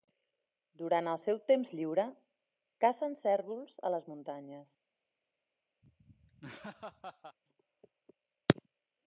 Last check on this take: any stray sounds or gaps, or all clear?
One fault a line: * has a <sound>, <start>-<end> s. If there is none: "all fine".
* has a laugh, 5.8-7.4 s